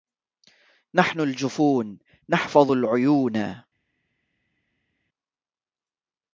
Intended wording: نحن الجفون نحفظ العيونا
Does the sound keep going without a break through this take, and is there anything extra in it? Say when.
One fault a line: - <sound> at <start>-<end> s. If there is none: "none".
none